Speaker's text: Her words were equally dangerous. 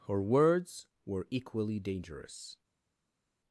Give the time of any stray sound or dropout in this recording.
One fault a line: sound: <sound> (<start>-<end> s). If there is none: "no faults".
no faults